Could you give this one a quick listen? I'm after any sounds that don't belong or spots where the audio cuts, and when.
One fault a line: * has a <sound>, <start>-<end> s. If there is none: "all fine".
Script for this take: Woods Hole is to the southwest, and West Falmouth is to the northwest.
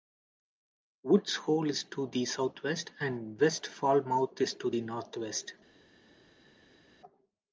all fine